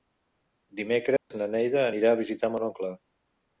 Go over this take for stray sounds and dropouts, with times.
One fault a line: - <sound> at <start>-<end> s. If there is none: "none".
- dropout at 1.2-1.3 s